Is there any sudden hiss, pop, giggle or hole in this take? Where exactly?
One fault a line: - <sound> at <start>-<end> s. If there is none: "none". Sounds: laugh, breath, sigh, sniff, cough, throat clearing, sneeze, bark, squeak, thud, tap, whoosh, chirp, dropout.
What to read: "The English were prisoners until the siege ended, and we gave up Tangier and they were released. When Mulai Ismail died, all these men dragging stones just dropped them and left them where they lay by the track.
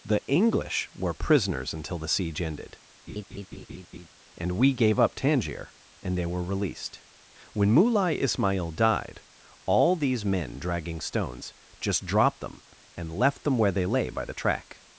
- laugh at 3.1-4.1 s